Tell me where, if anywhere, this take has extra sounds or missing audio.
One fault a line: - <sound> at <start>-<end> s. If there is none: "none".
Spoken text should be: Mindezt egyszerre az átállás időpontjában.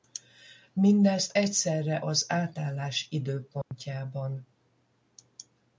- dropout at 3.6-3.7 s